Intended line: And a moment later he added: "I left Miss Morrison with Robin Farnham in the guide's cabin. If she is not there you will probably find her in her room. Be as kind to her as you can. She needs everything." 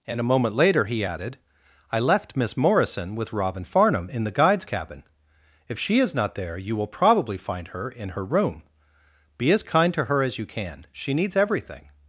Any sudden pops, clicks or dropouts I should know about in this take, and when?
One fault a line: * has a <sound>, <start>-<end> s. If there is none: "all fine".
all fine